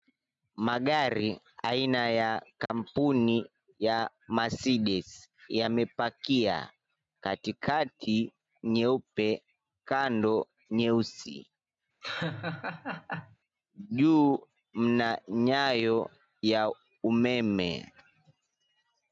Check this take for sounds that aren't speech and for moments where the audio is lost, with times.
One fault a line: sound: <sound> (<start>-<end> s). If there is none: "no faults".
sound: dropout (2.7-2.7 s)
sound: laugh (12.0-13.4 s)